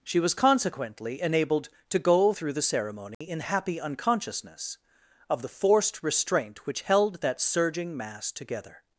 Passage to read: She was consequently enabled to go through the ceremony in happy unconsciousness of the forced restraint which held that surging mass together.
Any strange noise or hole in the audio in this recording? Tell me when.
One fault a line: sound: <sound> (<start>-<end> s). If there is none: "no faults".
sound: dropout (3.1-3.2 s)